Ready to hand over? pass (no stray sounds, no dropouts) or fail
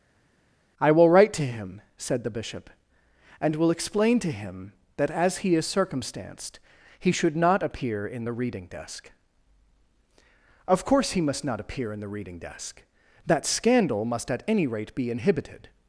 pass